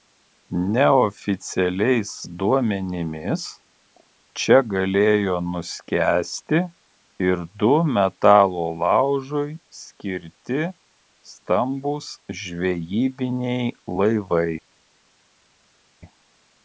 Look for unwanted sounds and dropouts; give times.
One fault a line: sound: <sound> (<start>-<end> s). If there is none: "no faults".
no faults